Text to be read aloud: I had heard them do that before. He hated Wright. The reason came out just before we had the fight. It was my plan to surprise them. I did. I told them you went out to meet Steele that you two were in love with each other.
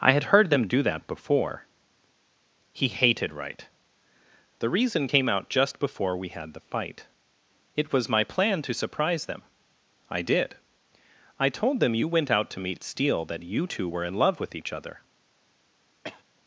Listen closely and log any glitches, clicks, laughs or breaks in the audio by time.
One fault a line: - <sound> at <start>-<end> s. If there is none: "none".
- cough at 16.0-16.2 s